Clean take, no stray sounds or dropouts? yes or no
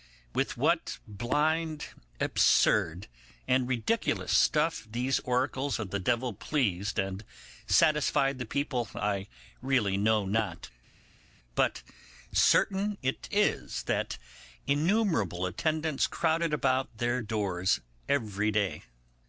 yes